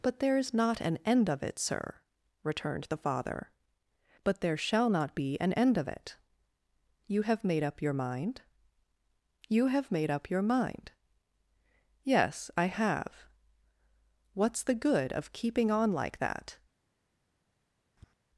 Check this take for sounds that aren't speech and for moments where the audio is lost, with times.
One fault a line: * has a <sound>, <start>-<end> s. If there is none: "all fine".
* has a tap, 18.0-18.1 s